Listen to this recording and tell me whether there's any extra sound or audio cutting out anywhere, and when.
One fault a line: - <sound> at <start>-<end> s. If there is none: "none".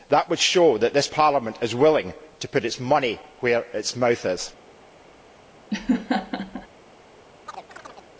- laugh at 5.7-6.7 s
- chirp at 7.5-8.1 s